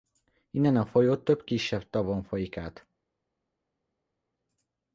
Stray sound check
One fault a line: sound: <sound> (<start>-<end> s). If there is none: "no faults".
no faults